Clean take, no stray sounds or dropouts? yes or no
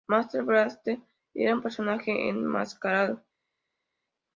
yes